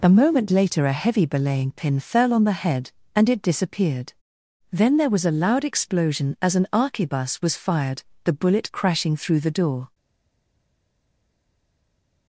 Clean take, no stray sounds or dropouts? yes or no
yes